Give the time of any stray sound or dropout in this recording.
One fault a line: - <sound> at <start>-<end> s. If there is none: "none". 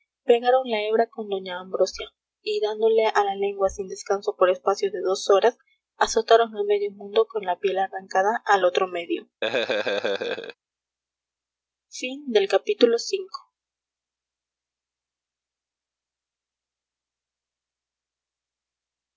- laugh at 9.4-10.6 s